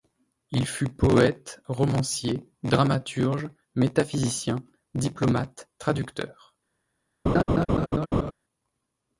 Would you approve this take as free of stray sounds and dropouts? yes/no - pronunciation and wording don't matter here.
no